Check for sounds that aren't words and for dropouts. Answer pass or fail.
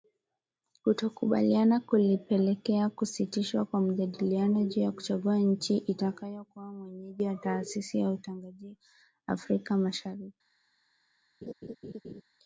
fail